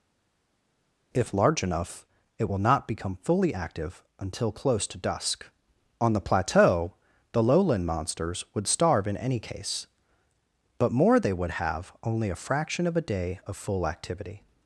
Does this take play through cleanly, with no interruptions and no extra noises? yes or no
yes